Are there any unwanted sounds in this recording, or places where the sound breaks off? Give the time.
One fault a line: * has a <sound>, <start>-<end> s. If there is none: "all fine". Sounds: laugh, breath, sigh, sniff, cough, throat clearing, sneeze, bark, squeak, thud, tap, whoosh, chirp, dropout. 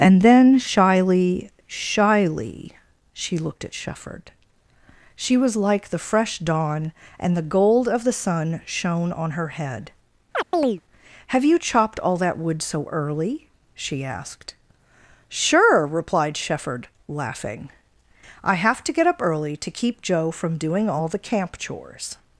* has a chirp, 10.3-10.8 s